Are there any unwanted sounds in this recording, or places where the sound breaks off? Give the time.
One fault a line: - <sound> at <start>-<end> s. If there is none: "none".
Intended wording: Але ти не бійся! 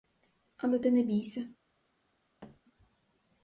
- thud at 2.4-2.6 s